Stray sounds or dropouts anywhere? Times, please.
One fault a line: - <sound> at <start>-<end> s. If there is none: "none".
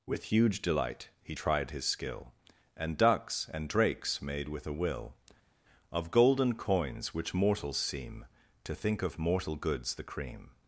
none